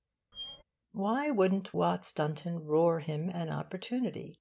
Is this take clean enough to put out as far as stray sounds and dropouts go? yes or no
no